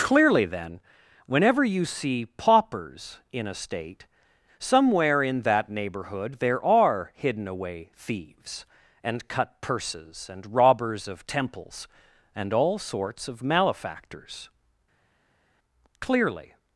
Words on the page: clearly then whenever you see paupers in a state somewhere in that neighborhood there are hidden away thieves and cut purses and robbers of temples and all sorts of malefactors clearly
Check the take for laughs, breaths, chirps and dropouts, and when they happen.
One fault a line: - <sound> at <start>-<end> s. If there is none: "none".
none